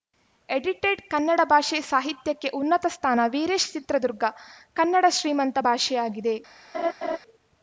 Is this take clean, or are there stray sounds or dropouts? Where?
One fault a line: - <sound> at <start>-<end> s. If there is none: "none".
- laugh at 6.7-7.2 s